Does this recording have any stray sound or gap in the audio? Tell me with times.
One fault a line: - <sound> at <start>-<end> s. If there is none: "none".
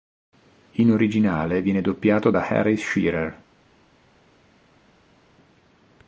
none